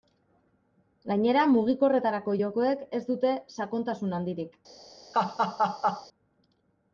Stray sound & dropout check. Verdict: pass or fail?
fail